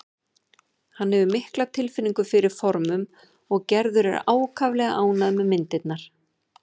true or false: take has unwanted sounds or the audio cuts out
false